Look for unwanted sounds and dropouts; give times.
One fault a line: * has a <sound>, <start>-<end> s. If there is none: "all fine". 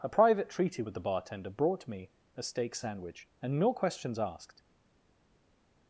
all fine